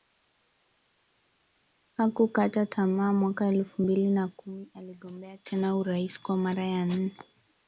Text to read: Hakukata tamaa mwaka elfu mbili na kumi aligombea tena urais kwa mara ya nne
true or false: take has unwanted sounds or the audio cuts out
false